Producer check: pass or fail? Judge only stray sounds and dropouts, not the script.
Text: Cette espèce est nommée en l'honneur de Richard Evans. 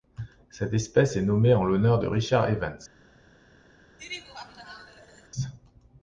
fail